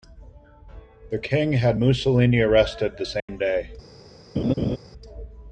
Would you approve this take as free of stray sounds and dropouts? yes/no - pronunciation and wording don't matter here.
no